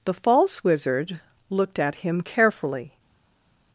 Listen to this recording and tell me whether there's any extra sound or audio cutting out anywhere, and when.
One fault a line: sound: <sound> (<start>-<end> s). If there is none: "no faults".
no faults